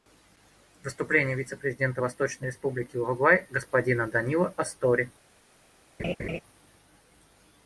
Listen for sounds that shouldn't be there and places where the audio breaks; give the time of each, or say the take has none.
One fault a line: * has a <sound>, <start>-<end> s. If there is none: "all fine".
* has a laugh, 6.0-6.4 s